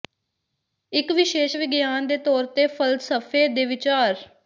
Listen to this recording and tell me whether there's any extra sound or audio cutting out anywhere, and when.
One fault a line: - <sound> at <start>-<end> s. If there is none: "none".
none